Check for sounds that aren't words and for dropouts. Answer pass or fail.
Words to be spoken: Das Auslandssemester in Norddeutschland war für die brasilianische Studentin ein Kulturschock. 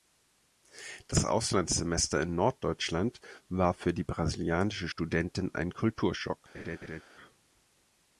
fail